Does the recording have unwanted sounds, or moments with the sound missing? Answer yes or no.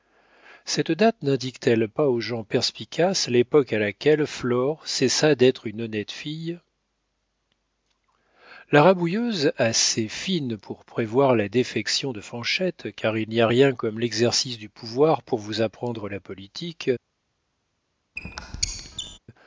yes